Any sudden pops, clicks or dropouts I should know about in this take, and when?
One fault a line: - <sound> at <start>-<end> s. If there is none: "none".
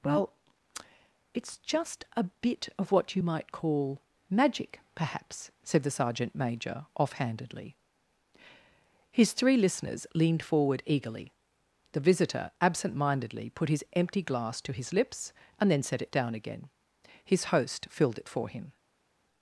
none